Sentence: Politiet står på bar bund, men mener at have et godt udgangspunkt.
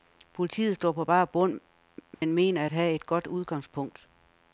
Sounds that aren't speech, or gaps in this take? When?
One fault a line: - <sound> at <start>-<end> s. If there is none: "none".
- dropout at 2.1-2.2 s